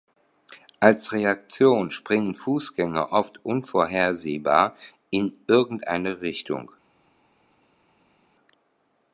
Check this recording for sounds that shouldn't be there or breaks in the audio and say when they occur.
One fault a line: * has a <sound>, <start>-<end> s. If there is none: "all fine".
all fine